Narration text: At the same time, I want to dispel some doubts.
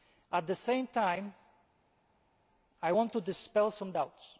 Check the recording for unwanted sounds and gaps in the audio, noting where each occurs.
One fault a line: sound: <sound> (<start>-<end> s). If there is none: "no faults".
no faults